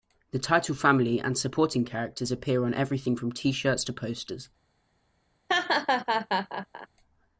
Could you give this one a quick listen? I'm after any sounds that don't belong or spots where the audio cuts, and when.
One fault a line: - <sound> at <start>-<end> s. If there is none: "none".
- laugh at 5.5-6.9 s